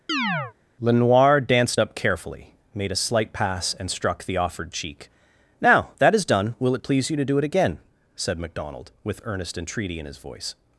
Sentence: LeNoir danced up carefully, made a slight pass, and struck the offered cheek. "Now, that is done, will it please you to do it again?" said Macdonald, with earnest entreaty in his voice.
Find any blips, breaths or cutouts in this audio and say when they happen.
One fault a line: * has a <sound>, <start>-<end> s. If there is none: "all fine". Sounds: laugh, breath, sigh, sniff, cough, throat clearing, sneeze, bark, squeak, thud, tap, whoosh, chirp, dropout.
* has a chirp, 0.1-0.5 s